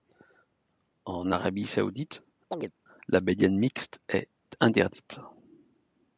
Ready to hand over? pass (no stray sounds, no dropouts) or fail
fail